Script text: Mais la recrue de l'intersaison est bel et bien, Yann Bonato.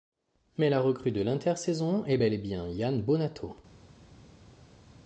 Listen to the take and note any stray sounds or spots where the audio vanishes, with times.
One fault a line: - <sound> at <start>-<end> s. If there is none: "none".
none